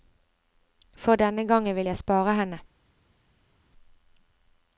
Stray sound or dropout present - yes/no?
no